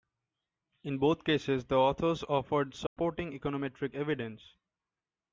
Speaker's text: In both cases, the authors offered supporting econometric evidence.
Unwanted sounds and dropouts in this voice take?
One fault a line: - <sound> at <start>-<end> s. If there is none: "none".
- dropout at 2.9-3.0 s